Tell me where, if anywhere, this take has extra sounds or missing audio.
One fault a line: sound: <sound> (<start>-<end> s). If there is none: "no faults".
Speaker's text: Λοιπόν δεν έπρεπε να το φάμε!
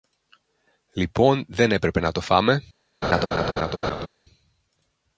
sound: laugh (3.0-4.1 s)